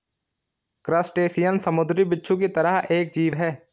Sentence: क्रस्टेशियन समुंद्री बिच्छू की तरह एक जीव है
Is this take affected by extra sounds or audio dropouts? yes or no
no